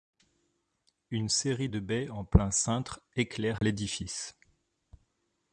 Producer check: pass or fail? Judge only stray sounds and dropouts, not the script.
fail